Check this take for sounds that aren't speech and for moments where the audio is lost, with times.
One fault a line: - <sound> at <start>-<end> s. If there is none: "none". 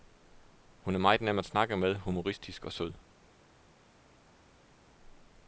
none